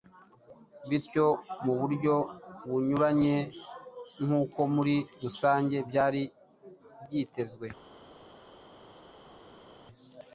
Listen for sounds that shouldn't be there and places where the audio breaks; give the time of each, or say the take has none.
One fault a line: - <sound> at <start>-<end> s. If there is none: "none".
none